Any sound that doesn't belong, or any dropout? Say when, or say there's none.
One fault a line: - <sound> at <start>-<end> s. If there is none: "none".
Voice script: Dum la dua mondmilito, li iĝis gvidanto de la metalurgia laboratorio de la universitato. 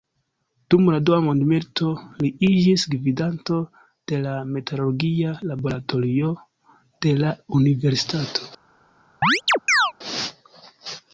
- chirp at 9.2-9.9 s